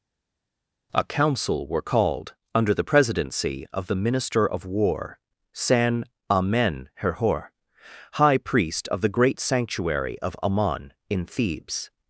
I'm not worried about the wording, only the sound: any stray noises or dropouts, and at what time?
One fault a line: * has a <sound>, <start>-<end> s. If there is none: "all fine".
all fine